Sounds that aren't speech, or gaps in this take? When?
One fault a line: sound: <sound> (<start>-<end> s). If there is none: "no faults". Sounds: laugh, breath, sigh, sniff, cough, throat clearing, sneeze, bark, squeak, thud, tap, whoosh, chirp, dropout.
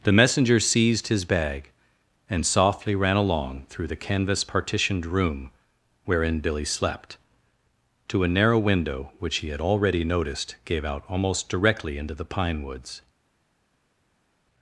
no faults